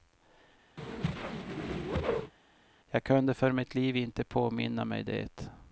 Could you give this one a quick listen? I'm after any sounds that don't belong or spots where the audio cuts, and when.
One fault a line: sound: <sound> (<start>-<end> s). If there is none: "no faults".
sound: whoosh (0.8-2.3 s)